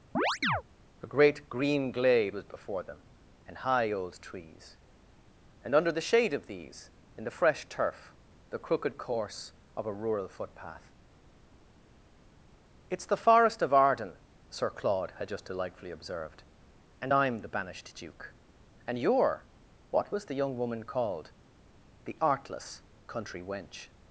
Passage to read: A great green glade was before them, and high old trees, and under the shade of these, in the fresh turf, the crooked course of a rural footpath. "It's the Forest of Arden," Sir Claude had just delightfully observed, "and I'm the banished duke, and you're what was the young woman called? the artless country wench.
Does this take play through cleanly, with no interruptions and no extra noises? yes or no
no